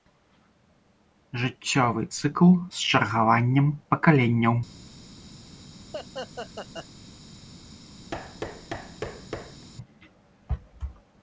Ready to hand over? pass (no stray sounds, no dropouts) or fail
fail